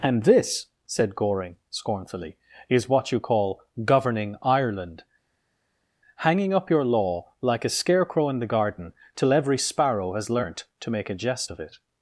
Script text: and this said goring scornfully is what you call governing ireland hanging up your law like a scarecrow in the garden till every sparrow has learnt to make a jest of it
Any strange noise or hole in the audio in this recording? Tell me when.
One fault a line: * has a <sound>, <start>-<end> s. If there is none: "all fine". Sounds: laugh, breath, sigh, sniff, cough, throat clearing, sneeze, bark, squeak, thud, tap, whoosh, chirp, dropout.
all fine